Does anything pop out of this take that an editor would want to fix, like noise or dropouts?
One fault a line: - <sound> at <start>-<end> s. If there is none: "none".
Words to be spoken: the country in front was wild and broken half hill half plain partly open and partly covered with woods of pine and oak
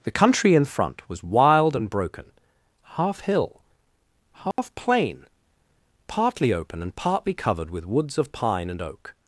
- dropout at 4.5-4.6 s